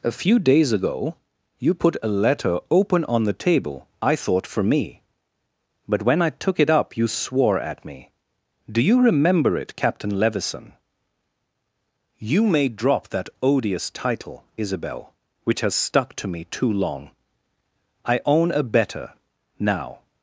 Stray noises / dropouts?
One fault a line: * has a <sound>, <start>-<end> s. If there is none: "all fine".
all fine